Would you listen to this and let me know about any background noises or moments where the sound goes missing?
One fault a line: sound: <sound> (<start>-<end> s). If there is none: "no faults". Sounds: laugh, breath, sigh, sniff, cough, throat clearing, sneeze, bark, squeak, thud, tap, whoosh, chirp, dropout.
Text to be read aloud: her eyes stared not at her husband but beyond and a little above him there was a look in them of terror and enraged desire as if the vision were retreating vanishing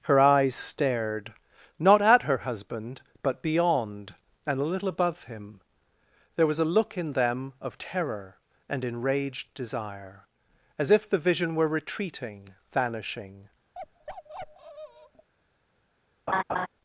sound: bark (13.7-15.3 s)
sound: laugh (16.3-16.7 s)